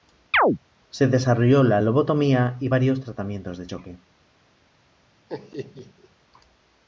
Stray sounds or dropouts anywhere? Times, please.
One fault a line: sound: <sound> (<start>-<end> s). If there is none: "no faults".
sound: chirp (0.3-0.6 s)
sound: laugh (5.3-6.1 s)